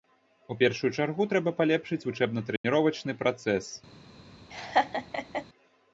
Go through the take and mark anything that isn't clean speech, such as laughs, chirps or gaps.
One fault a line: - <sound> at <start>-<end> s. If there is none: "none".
- dropout at 2.6-2.6 s
- laugh at 4.5-5.5 s